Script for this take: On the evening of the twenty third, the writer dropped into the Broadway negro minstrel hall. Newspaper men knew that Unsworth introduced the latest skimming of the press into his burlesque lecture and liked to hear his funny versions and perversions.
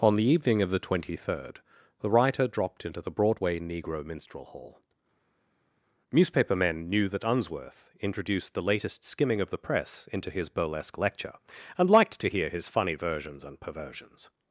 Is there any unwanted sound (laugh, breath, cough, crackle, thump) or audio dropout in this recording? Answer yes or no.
no